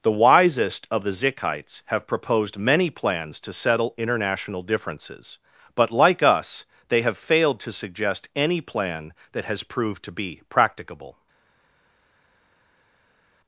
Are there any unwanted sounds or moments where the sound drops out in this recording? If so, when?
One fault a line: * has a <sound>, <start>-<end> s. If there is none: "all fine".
all fine